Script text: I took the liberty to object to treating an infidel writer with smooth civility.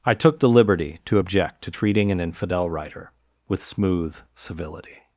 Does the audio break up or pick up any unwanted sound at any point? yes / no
no